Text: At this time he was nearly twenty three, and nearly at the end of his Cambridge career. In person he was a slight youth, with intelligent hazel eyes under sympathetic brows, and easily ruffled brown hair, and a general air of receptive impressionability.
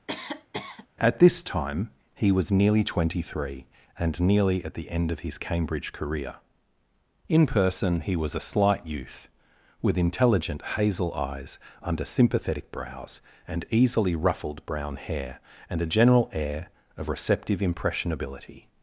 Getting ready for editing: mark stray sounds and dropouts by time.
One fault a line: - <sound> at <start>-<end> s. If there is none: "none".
- cough at 0.1-0.9 s